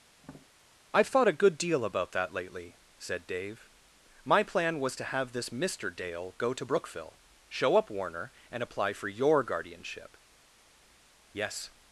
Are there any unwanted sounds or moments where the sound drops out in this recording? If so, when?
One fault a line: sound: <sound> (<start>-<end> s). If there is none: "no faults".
sound: tap (0.2-0.5 s)